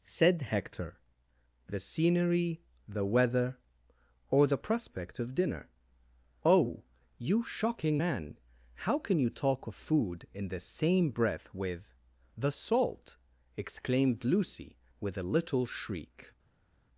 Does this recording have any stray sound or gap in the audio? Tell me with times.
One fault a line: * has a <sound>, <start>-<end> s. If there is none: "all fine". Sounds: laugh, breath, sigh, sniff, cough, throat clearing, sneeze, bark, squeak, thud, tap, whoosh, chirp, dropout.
all fine